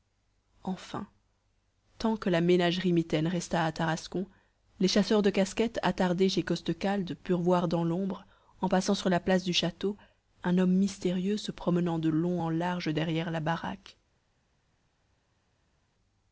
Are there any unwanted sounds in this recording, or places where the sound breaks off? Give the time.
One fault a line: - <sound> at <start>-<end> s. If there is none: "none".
none